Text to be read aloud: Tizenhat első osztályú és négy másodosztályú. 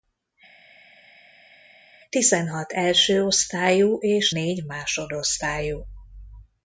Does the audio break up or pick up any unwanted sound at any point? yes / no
no